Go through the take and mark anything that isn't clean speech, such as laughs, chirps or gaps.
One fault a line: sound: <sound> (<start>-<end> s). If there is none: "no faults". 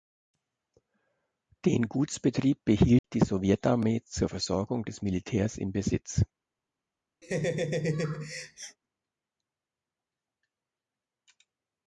sound: dropout (3.0-3.0 s)
sound: laugh (7.2-8.8 s)